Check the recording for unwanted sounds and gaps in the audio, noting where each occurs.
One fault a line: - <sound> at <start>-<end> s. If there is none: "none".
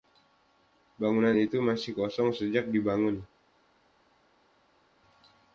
none